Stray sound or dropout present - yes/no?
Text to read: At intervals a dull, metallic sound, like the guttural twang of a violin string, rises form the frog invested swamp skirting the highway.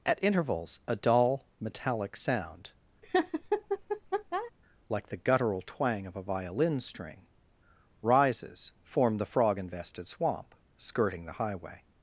yes